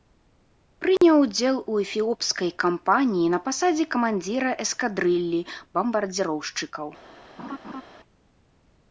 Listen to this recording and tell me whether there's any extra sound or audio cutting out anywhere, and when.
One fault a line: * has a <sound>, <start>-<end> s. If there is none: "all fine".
* has a dropout, 1.0-1.0 s
* has a laugh, 7.4-7.8 s